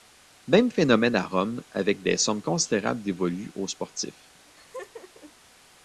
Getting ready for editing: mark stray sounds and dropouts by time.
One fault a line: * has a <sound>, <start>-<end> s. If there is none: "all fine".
* has a laugh, 4.5-5.3 s